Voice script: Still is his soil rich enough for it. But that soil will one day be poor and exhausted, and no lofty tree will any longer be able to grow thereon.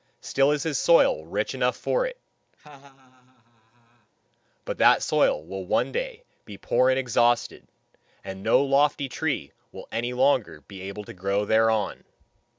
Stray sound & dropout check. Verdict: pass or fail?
fail